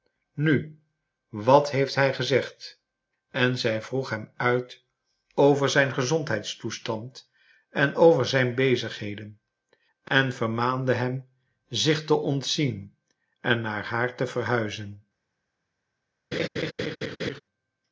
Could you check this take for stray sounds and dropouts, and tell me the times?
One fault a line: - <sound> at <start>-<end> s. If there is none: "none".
- laugh at 16.3-17.4 s